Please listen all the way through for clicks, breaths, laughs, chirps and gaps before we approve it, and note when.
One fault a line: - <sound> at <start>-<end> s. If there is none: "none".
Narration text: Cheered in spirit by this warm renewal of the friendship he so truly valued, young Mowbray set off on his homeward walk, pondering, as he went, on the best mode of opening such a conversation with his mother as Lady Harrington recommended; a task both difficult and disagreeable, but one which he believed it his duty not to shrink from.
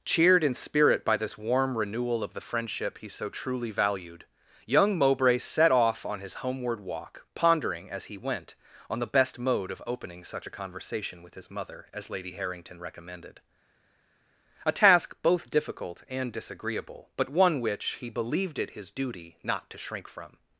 none